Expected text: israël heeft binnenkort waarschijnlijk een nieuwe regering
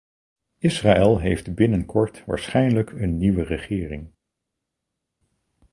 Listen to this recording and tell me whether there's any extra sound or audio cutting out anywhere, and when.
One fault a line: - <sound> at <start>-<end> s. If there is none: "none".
none